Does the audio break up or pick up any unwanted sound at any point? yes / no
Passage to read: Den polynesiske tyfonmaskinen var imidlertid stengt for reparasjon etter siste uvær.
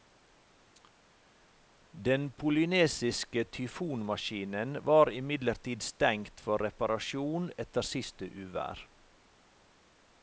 no